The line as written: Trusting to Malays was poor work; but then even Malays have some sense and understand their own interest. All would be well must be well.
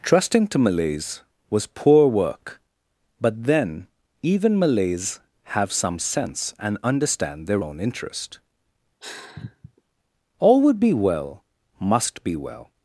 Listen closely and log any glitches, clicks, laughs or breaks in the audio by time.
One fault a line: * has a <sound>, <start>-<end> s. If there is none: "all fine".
* has a sigh, 9.0-9.8 s